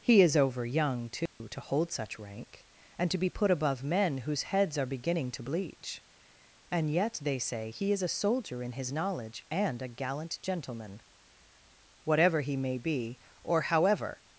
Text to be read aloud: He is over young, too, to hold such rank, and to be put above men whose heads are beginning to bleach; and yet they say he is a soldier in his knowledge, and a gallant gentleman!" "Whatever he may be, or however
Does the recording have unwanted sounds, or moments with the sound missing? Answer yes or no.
yes